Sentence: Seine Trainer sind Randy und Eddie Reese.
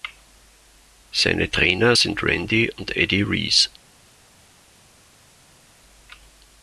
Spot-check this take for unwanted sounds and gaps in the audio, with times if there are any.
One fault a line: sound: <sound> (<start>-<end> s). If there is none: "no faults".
no faults